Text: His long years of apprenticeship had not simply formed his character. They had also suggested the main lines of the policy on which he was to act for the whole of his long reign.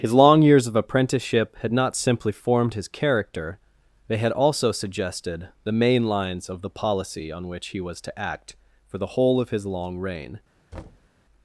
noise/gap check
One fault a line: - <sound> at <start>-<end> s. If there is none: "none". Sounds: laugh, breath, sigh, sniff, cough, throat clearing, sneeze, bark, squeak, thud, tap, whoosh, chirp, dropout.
- thud at 10.7-11.1 s